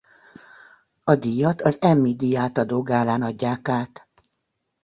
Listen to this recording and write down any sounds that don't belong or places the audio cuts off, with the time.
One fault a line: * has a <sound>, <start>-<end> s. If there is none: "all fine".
all fine